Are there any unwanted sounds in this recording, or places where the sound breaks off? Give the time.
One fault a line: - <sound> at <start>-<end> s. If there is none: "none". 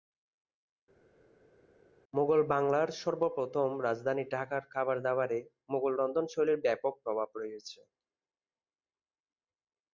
none